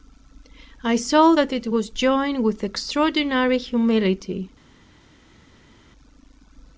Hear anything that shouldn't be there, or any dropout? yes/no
no